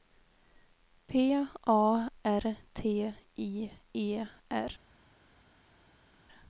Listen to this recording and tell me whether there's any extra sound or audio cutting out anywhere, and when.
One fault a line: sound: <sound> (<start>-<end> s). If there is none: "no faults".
no faults